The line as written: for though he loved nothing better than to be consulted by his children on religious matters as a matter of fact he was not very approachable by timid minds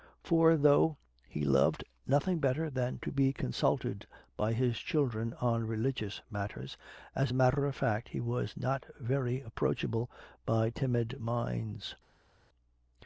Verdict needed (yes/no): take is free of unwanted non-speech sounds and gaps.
yes